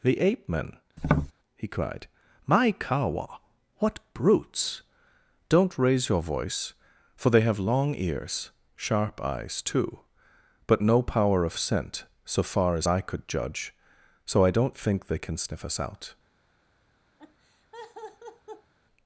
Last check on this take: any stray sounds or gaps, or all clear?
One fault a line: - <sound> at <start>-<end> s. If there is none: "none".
- tap at 1.0-1.3 s
- laugh at 17.2-18.7 s